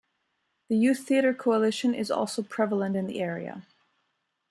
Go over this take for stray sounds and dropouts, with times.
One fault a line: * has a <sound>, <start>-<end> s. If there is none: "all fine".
all fine